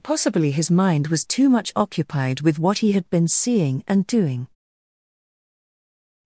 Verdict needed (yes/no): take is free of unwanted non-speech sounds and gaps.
yes